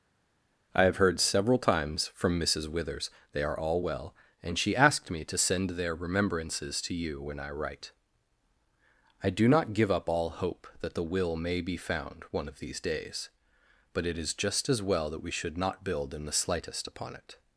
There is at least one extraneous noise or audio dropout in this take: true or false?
false